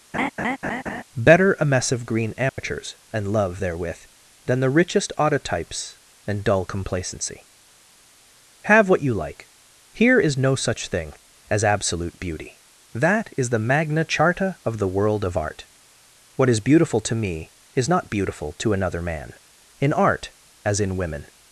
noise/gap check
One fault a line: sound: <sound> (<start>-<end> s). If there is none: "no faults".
sound: laugh (0.1-1.0 s)
sound: dropout (2.5-2.6 s)